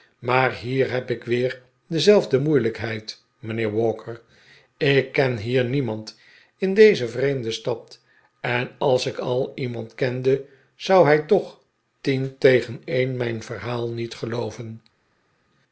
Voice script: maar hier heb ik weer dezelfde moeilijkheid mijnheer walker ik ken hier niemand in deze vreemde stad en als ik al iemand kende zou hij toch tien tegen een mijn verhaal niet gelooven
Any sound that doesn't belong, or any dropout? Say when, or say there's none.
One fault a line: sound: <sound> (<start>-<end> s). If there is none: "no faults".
no faults